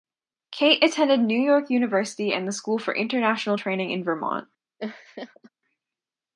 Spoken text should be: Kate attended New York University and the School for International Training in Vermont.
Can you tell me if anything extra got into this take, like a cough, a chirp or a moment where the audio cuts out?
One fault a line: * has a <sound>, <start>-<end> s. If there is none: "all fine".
* has a laugh, 4.8-5.5 s